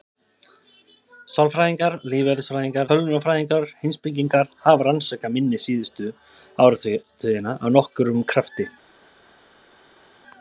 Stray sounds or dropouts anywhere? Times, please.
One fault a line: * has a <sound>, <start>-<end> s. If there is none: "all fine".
all fine